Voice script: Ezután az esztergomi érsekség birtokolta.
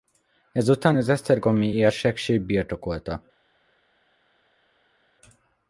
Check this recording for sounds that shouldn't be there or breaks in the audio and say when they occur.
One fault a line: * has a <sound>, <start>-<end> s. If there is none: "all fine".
all fine